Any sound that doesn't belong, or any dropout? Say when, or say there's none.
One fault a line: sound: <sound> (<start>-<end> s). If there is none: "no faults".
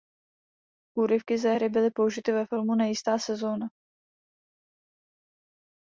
no faults